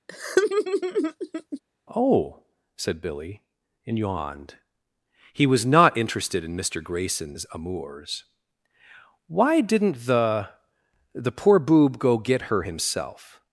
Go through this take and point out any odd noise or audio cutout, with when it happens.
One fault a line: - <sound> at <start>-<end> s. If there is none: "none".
- laugh at 0.1-1.6 s